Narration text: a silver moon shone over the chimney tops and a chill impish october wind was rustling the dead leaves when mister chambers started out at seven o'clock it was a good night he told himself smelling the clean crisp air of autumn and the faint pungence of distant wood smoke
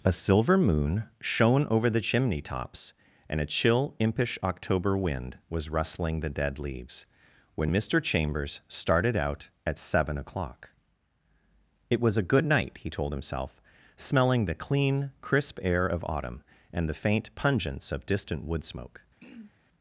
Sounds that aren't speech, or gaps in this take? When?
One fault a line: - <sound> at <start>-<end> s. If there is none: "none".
- throat clearing at 19.2-19.5 s